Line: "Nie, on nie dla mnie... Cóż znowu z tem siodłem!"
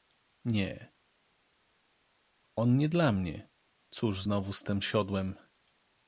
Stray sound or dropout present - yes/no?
no